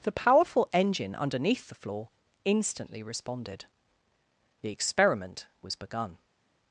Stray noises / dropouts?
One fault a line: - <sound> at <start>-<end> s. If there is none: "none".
none